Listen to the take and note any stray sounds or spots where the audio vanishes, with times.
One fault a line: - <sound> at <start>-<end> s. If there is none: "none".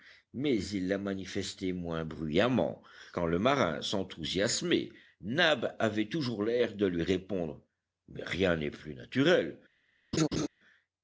- laugh at 10.1-10.5 s